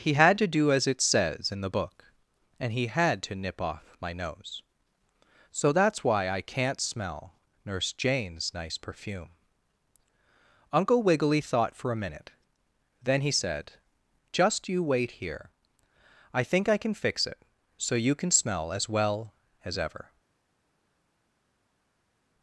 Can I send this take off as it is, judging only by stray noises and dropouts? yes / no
yes